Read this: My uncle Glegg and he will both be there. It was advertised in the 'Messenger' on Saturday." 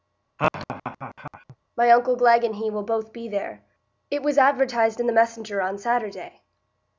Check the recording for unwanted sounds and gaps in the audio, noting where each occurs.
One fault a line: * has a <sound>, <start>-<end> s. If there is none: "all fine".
* has a laugh, 0.4-1.6 s